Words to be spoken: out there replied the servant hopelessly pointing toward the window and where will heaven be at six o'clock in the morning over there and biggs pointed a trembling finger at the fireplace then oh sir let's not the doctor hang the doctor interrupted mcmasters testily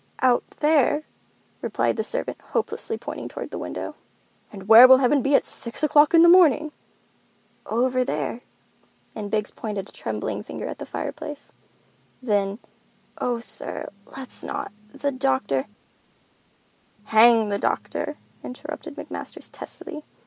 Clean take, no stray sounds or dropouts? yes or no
yes